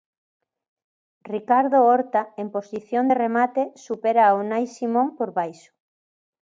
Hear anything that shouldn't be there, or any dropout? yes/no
no